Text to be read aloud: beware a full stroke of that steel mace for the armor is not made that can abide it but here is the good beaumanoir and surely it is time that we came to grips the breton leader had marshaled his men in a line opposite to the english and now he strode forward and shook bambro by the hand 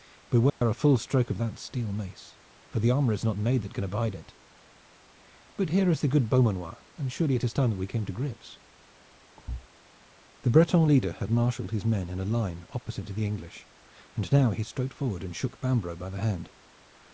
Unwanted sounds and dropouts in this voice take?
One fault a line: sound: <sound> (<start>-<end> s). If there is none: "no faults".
sound: dropout (0.5-0.6 s)
sound: thud (9.4-9.7 s)